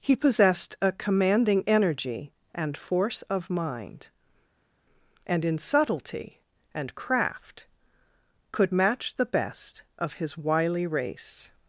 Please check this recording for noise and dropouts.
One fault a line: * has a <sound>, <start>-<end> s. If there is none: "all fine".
all fine